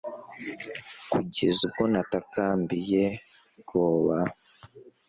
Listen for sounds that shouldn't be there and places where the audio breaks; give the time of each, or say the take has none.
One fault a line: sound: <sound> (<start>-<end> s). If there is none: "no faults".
no faults